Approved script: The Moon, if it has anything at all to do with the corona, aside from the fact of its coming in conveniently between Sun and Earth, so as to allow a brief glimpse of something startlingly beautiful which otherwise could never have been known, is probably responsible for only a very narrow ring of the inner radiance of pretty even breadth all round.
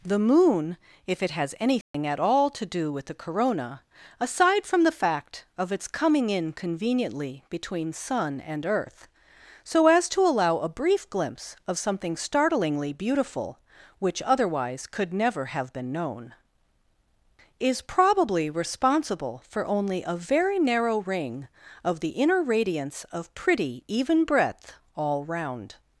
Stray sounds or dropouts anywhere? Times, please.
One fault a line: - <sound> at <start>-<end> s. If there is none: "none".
- dropout at 1.8-1.9 s